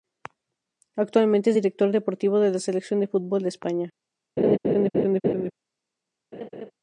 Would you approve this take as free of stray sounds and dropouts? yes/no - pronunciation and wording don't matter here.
no